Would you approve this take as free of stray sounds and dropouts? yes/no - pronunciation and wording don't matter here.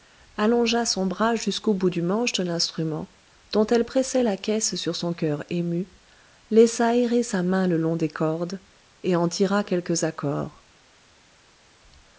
yes